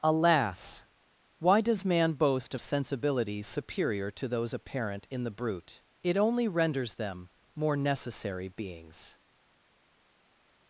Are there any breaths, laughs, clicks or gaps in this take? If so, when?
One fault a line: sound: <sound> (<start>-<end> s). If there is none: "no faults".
no faults